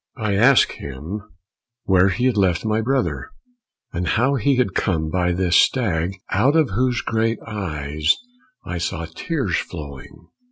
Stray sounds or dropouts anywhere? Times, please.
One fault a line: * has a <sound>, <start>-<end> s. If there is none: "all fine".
all fine